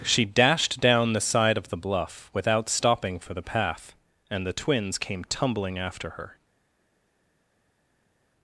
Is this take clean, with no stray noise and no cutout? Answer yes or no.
yes